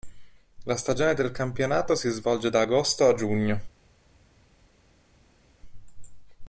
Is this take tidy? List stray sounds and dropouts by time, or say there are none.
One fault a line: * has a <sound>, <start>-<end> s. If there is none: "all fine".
all fine